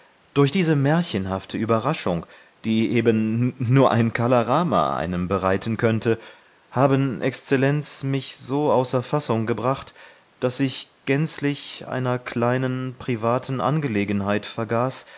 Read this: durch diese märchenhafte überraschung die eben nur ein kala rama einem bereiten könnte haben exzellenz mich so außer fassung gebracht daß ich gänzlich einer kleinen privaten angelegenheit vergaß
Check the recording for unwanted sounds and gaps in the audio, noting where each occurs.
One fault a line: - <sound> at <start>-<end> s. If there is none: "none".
none